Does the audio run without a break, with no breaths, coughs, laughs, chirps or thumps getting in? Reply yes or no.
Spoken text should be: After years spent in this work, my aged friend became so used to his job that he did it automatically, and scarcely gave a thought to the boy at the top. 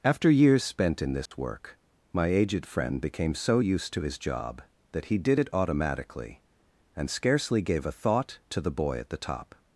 no